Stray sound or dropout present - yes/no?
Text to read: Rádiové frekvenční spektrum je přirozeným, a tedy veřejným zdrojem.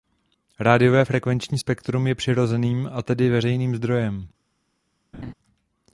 yes